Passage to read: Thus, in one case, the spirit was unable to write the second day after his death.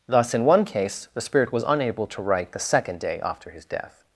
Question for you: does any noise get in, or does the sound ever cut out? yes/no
no